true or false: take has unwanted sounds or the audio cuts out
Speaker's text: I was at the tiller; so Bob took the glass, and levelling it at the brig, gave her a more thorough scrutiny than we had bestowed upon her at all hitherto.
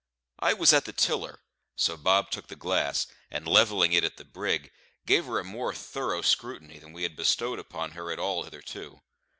false